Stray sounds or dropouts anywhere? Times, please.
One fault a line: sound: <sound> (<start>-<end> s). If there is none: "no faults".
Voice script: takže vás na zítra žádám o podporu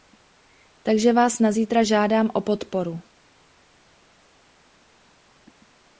no faults